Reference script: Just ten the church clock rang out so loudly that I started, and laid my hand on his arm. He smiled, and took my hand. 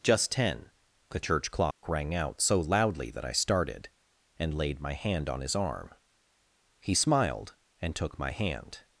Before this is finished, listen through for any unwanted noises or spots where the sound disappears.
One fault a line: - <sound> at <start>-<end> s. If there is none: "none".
- dropout at 1.7-1.8 s